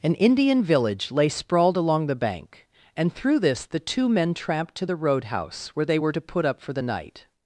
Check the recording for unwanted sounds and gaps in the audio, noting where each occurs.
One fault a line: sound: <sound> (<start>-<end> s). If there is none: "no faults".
no faults